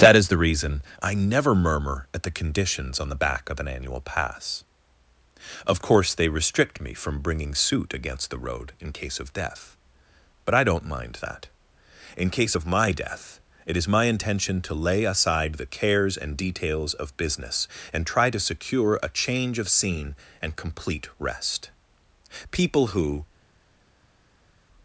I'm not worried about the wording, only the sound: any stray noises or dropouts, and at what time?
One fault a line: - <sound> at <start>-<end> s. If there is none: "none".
none